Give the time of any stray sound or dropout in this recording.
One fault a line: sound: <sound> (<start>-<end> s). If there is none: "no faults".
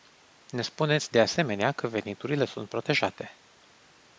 no faults